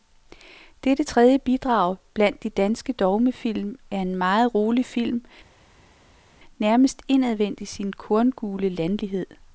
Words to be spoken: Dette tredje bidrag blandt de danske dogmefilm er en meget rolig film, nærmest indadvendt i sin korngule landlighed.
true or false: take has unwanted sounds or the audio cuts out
false